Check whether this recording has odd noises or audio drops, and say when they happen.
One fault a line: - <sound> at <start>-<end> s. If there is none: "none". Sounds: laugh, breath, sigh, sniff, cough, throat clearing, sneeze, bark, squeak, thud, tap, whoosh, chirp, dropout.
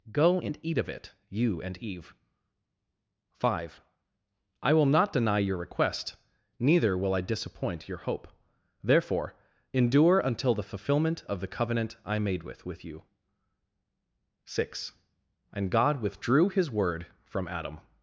none